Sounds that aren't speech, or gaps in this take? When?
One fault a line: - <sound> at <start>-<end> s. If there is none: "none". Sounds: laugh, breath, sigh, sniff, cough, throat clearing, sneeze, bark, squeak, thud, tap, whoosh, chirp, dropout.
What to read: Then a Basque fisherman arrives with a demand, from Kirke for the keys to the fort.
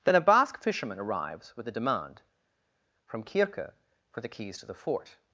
none